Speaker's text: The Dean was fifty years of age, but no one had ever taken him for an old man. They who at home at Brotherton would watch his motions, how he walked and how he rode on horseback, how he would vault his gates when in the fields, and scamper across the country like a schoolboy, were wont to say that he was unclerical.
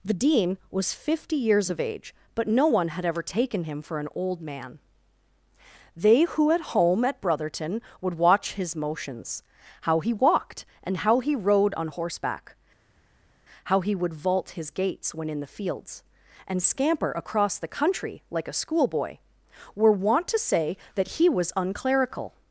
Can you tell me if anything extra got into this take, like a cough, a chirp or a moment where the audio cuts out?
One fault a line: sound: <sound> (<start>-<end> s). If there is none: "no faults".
no faults